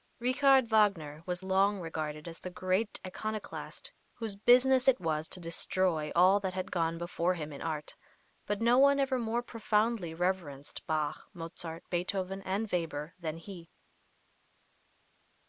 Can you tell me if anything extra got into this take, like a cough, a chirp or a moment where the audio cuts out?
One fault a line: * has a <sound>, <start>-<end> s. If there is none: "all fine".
all fine